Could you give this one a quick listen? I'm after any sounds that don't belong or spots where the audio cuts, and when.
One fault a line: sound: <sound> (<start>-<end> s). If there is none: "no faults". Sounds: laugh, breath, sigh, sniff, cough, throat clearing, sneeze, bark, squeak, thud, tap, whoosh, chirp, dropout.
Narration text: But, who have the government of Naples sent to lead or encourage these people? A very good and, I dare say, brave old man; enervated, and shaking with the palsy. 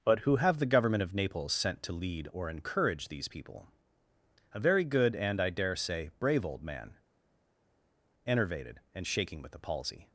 no faults